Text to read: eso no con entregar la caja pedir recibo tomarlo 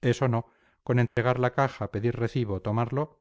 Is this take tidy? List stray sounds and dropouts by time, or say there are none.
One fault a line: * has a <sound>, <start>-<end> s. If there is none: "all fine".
* has a dropout, 1.1-1.2 s